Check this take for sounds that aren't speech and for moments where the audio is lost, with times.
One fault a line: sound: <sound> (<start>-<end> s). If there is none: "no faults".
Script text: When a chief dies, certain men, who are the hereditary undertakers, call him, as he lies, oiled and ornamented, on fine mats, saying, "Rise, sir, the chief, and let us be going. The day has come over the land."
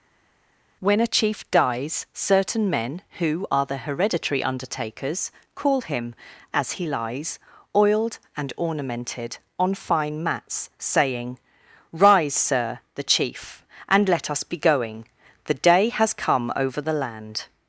no faults